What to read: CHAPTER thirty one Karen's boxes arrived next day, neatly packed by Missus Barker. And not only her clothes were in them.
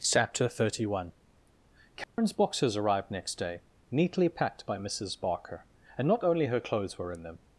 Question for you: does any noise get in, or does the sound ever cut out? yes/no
yes